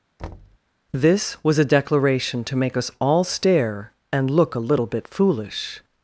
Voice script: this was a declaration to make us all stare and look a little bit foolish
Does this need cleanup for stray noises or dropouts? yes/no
yes